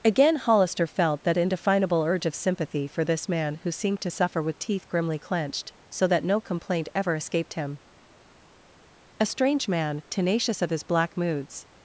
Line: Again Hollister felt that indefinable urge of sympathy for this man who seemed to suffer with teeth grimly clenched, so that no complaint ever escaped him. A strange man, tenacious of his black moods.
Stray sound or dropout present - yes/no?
no